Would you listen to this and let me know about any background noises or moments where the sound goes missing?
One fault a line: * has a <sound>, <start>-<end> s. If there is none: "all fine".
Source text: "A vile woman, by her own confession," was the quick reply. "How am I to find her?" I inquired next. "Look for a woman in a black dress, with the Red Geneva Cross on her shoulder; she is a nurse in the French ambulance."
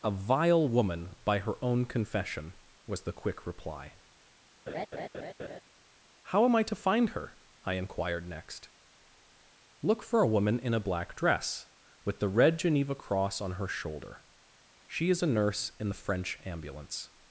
* has a laugh, 4.7-5.6 s